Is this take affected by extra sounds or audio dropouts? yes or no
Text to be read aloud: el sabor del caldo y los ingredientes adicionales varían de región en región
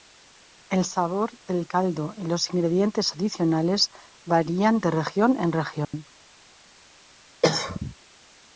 yes